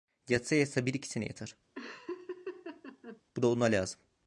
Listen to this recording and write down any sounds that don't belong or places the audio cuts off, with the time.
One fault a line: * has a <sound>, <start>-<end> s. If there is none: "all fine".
* has a laugh, 1.8-3.2 s